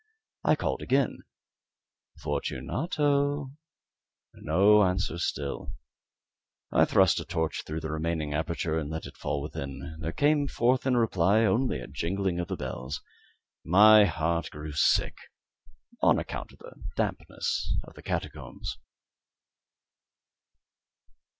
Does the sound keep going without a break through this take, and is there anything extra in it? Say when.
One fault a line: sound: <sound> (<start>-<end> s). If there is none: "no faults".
no faults